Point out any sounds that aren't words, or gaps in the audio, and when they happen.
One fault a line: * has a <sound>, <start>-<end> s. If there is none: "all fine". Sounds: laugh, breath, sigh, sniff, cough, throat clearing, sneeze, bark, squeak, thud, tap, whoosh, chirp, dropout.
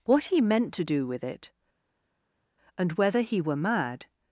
all fine